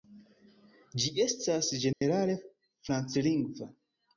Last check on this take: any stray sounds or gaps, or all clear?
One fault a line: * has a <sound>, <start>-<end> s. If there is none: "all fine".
* has a dropout, 1.9-2.0 s